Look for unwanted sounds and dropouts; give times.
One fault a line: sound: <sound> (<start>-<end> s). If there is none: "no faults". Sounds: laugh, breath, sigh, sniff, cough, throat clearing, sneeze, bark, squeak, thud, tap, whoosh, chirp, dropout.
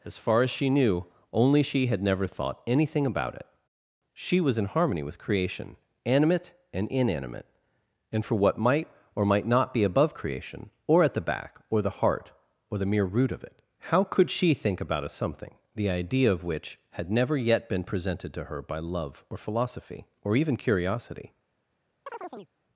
sound: chirp (22.1-22.5 s)